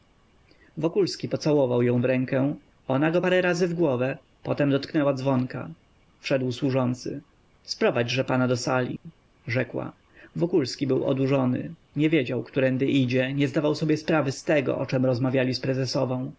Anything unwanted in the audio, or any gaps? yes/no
yes